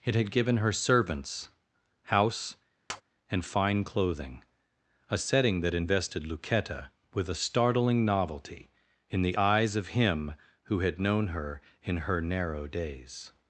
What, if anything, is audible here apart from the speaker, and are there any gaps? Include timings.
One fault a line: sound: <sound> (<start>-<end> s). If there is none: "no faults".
sound: tap (2.9-3.0 s)